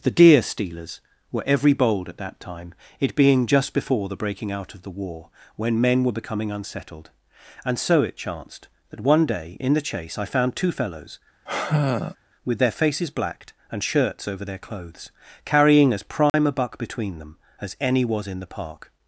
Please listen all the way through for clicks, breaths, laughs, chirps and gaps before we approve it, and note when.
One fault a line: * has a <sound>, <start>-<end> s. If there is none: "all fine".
* has a sigh, 11.5-12.2 s
* has a dropout, 16.3-16.3 s